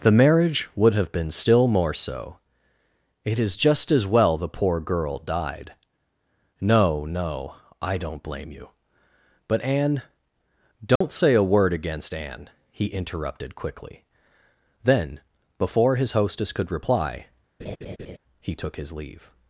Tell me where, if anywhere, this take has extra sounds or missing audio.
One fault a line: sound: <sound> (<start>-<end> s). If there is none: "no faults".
sound: dropout (11.0-11.0 s)
sound: laugh (17.6-18.2 s)